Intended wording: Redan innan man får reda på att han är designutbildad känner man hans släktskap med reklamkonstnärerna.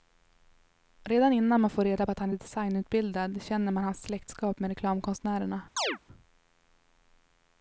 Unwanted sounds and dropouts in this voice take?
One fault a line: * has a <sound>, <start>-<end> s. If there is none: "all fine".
* has a chirp, 5.8-6.0 s